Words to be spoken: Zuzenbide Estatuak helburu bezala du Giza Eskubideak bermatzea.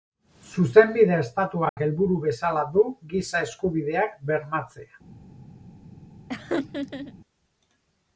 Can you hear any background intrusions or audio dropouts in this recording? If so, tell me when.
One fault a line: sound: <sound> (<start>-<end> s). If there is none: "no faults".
sound: dropout (1.7-1.8 s)
sound: laugh (6.3-7.1 s)